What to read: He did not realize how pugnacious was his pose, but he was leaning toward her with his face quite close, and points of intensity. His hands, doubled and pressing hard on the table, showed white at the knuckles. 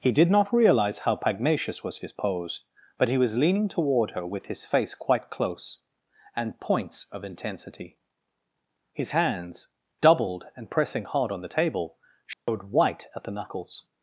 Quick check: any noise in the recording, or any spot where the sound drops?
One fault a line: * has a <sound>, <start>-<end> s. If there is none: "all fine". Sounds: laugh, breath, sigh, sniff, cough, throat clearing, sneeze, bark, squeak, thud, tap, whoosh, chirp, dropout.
* has a dropout, 12.3-12.5 s